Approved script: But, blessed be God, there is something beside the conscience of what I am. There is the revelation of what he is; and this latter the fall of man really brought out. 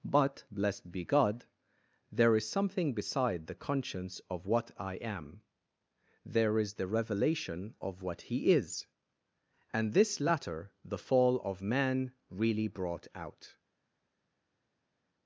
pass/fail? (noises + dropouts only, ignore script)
pass